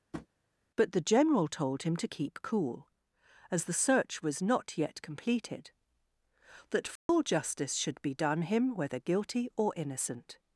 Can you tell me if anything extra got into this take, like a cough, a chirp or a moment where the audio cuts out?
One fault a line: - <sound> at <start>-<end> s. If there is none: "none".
- tap at 0.1-0.3 s
- dropout at 7.0-7.1 s